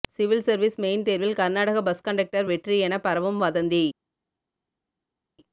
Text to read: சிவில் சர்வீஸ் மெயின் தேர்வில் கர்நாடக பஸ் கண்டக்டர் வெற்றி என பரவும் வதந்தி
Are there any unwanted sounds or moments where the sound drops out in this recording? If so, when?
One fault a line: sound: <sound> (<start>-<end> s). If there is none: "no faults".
no faults